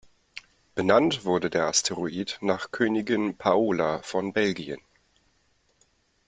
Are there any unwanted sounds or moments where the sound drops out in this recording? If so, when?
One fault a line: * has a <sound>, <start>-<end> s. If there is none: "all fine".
all fine